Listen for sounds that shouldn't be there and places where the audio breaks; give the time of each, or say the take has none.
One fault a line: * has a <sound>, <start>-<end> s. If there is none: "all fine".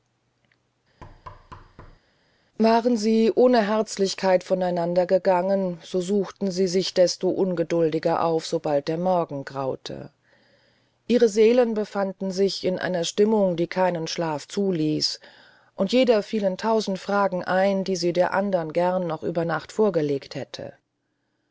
* has a thud, 1.0-2.0 s